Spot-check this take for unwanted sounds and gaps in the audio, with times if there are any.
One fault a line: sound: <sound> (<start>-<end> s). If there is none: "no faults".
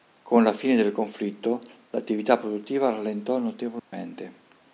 sound: dropout (3.8-3.9 s)